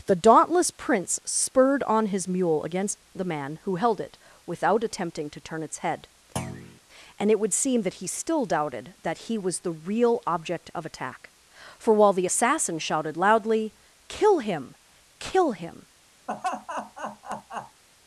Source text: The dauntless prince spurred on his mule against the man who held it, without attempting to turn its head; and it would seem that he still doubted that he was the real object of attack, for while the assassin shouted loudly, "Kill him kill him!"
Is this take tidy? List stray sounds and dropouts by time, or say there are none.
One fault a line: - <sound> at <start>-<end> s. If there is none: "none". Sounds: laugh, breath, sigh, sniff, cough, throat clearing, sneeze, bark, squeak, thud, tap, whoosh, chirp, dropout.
- thud at 6.4-6.8 s
- laugh at 16.3-17.8 s